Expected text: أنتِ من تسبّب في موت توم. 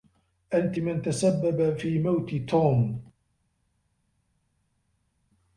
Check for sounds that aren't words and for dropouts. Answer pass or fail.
pass